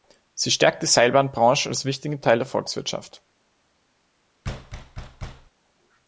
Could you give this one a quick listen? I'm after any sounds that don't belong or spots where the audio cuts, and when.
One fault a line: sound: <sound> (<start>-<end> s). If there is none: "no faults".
sound: thud (4.4-5.5 s)